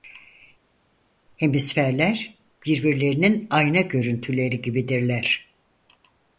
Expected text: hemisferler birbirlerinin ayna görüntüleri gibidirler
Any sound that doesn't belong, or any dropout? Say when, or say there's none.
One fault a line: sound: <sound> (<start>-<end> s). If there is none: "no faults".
no faults